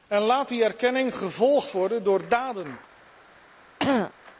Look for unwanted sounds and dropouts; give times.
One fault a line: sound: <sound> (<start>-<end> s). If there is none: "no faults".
sound: throat clearing (3.8-4.1 s)